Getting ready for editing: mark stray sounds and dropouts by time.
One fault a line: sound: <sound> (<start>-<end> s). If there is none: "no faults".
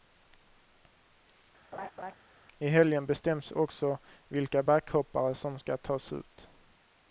sound: laugh (1.7-2.1 s)